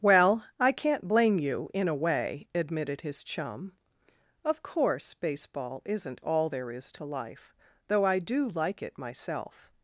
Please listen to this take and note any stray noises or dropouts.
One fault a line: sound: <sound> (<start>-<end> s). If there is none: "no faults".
no faults